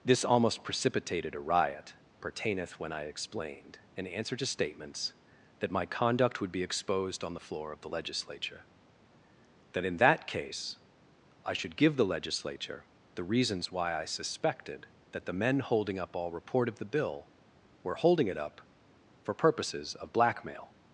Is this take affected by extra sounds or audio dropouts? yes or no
no